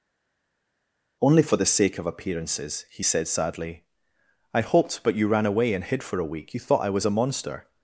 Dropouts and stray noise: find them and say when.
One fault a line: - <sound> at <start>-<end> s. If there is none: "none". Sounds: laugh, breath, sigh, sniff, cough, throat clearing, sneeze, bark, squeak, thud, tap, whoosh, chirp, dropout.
none